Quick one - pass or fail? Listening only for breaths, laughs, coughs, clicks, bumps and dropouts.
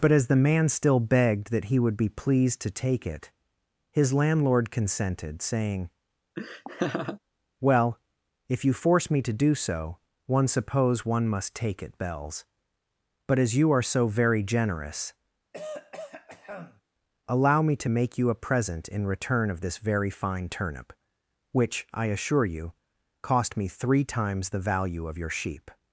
fail